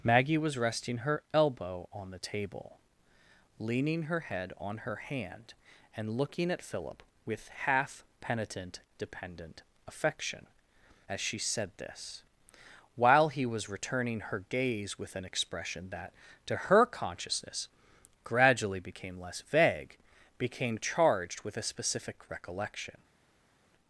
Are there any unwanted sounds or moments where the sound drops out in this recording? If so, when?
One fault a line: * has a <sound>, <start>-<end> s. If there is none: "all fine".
all fine